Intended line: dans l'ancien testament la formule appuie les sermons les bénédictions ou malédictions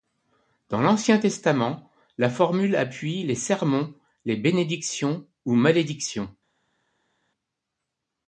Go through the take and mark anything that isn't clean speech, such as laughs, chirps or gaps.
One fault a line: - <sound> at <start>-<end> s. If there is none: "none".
none